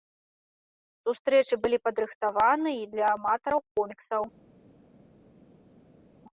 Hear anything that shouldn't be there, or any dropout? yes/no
no